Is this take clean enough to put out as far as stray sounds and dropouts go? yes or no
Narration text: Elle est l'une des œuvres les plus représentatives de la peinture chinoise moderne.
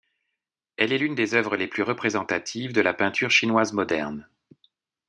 yes